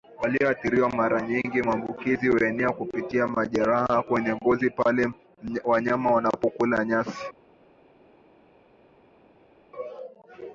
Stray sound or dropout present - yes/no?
no